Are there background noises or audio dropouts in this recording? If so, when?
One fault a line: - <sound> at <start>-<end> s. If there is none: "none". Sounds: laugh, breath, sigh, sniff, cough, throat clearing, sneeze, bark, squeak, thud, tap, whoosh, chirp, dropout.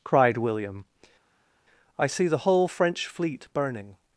none